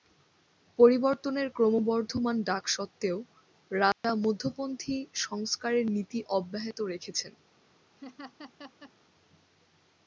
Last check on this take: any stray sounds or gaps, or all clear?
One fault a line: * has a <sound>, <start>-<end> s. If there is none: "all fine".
* has a dropout, 3.9-4.0 s
* has a laugh, 8.0-8.9 s